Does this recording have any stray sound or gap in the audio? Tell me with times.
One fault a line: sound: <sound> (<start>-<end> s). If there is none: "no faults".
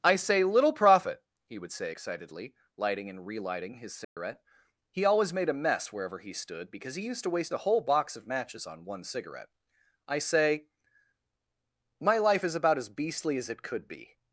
sound: dropout (4.0-4.2 s)